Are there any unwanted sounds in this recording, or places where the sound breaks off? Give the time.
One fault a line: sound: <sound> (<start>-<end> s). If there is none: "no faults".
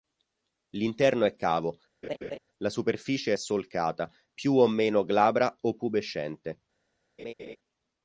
sound: laugh (2.0-2.4 s)
sound: laugh (7.2-7.6 s)